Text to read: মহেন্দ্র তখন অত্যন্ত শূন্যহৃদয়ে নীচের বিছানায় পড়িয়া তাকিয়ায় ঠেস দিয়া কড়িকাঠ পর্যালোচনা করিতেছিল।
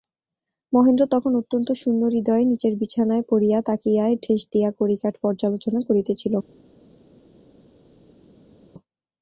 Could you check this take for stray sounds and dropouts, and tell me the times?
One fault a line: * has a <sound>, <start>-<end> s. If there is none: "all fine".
all fine